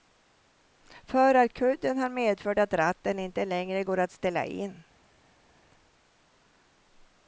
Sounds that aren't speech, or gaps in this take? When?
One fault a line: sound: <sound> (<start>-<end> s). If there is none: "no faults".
no faults